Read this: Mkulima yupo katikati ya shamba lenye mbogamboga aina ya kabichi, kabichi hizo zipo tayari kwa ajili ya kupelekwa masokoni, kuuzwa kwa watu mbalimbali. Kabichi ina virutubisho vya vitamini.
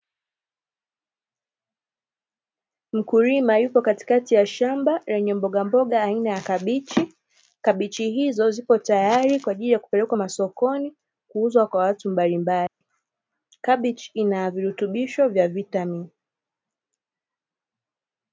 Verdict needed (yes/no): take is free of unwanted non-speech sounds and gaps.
no